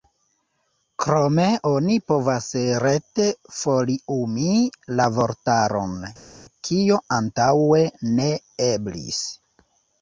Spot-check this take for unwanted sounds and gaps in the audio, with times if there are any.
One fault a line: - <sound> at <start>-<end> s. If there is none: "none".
none